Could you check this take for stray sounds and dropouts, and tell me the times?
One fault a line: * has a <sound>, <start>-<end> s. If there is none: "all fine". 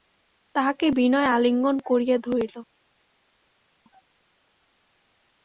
all fine